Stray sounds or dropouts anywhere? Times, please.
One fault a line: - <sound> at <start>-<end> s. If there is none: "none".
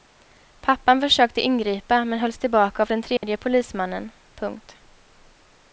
- dropout at 3.2-3.2 s